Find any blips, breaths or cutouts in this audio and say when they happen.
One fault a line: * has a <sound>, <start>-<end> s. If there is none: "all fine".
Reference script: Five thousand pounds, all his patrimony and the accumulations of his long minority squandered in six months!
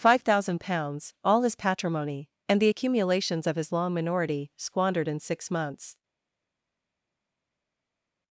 all fine